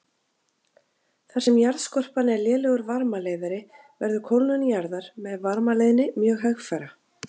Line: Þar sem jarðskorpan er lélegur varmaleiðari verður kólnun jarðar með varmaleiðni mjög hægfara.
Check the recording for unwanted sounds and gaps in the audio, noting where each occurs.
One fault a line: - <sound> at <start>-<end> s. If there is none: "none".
none